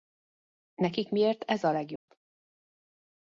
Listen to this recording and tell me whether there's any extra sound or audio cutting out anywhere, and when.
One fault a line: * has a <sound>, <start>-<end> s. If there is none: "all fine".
* has a dropout, 2.0-2.1 s